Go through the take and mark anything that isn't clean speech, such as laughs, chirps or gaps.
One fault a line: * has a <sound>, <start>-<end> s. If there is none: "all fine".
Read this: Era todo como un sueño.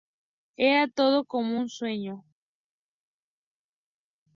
all fine